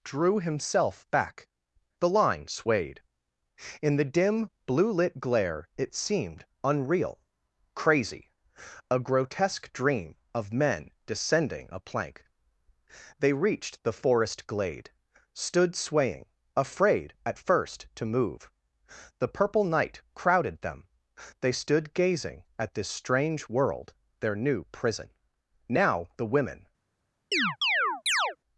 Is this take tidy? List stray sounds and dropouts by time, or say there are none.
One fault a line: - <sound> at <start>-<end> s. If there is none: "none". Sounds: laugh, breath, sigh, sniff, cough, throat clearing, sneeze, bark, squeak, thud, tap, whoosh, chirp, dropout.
- chirp at 27.3-28.4 s